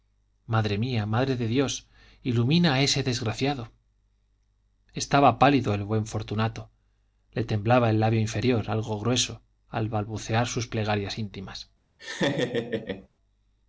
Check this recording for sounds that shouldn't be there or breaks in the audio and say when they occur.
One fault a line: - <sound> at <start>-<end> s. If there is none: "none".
- laugh at 12.0-13.1 s